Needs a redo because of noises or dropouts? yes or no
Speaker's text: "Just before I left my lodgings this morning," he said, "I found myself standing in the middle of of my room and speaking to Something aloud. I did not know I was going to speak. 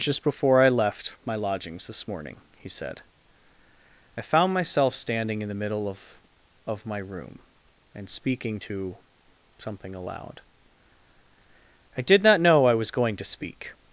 no